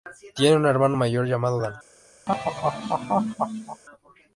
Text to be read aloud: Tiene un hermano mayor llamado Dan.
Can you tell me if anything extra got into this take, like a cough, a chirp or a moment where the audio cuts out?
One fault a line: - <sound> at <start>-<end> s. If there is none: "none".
- laugh at 2.3-3.8 s